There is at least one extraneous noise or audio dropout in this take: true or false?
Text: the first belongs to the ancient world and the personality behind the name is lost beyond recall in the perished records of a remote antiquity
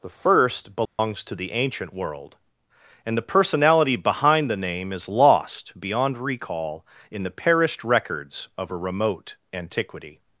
true